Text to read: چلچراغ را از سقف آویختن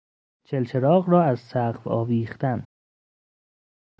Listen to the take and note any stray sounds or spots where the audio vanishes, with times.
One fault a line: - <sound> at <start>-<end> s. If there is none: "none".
none